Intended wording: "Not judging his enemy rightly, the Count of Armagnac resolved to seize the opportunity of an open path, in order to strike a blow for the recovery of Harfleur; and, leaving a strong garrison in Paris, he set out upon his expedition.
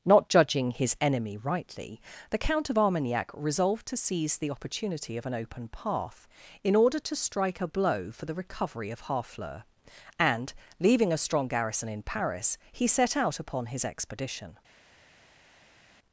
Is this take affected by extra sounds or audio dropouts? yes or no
no